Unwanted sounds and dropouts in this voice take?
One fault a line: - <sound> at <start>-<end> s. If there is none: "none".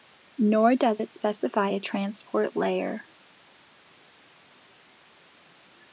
none